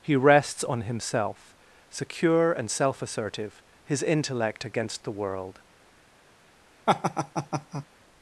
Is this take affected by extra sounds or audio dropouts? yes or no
yes